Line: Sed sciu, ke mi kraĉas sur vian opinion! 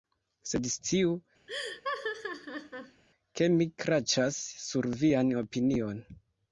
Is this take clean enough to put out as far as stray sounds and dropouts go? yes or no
no